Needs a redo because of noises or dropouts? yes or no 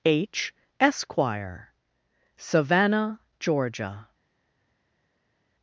no